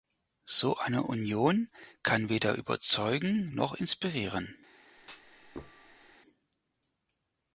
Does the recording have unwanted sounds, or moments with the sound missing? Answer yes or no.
yes